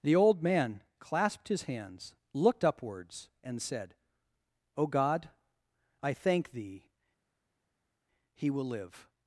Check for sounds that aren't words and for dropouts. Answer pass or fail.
pass